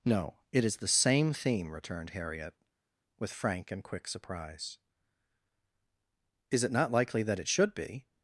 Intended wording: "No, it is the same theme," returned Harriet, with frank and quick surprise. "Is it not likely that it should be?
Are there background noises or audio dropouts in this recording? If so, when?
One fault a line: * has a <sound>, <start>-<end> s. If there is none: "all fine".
all fine